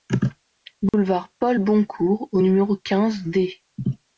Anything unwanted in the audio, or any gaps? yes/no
yes